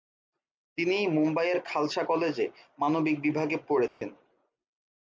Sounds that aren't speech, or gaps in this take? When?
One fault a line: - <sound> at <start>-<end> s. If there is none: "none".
- dropout at 3.9-4.0 s